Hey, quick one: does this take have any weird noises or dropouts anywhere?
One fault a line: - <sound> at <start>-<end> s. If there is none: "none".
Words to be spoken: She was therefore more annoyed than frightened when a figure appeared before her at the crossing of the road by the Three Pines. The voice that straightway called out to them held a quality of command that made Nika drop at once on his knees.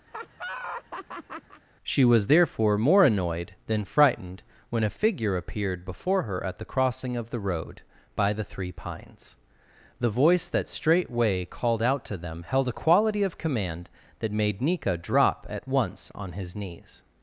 - laugh at 0.1-1.6 s